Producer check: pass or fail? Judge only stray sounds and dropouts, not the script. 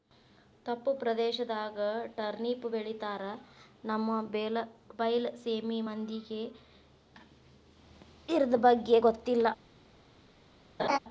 fail